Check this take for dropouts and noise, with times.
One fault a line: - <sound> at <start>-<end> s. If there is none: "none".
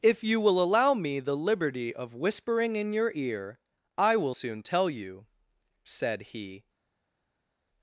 none